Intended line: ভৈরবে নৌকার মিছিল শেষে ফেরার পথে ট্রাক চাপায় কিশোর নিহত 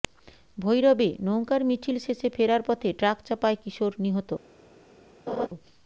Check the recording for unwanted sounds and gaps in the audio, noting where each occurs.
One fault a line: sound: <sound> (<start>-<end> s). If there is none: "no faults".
sound: laugh (5.3-5.5 s)